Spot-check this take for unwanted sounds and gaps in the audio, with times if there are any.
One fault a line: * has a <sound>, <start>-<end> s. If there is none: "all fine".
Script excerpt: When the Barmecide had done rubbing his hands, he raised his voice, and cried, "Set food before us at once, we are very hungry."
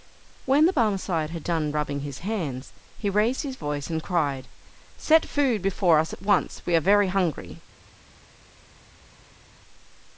all fine